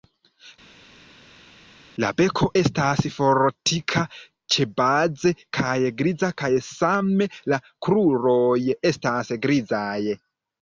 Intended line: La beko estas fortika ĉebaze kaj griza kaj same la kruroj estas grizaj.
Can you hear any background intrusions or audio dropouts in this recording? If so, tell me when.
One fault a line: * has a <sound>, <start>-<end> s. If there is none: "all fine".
all fine